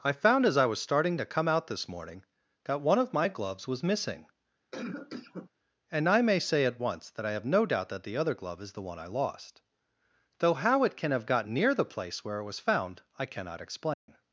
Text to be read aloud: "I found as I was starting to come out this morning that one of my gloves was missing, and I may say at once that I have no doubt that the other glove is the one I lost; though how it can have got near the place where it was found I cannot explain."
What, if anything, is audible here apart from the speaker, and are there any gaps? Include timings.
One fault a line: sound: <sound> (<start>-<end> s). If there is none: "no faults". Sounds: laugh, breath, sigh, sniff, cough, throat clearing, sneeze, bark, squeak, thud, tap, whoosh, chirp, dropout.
sound: cough (4.7-5.5 s)
sound: dropout (13.9-14.1 s)